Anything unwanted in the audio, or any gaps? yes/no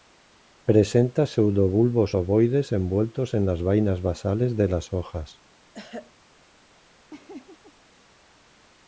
yes